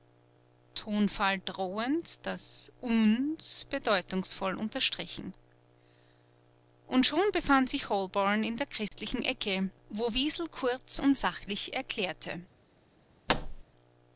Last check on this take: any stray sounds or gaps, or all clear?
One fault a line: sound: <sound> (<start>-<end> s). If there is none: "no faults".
sound: dropout (8.9-8.9 s)
sound: thud (13.3-13.6 s)